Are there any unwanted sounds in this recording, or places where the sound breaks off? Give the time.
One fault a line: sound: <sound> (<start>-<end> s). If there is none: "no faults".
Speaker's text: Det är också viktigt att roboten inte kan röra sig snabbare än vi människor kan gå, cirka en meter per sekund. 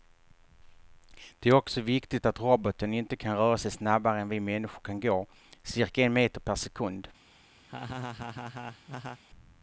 sound: laugh (7.7-9.2 s)